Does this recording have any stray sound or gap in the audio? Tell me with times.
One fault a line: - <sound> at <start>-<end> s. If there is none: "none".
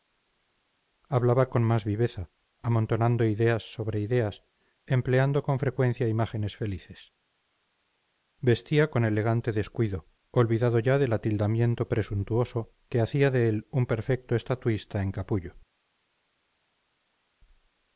none